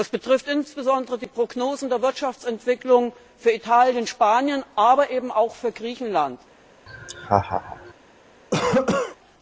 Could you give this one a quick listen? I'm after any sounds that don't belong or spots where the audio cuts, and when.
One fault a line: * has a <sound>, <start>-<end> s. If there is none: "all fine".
* has a laugh, 6.9-7.9 s
* has a cough, 8.5-9.2 s